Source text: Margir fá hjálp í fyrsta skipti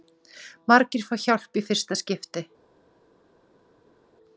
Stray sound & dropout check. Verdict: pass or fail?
pass